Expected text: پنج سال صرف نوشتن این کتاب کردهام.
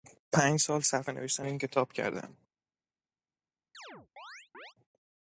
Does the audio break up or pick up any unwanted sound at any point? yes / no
yes